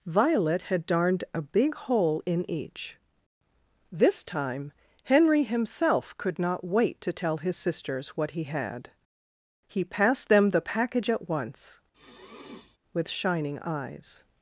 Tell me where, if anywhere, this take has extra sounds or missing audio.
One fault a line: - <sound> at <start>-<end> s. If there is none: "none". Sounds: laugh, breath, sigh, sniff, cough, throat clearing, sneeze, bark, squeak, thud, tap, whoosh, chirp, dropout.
- sniff at 11.9-12.8 s